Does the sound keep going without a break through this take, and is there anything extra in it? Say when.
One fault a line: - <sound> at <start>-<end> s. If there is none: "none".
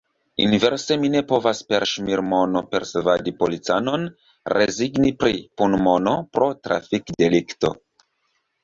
none